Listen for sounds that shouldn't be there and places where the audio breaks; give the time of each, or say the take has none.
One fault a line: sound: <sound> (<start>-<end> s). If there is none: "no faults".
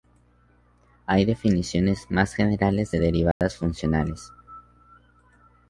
sound: dropout (3.3-3.4 s)